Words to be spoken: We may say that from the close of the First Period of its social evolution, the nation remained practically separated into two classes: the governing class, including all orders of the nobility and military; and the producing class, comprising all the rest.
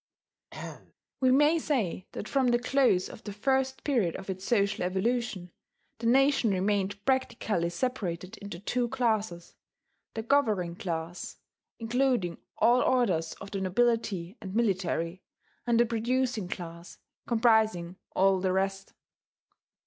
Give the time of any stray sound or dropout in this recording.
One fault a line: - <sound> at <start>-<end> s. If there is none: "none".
- throat clearing at 0.5-0.9 s